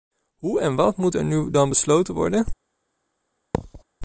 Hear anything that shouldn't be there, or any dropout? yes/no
yes